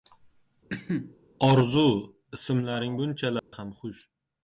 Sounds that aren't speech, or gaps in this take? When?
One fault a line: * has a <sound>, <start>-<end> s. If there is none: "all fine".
* has a cough, 0.7-1.2 s
* has a dropout, 3.4-3.5 s